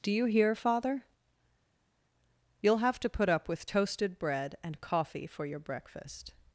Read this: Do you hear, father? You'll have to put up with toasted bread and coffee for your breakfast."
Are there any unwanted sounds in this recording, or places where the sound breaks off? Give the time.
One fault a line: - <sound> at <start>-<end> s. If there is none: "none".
none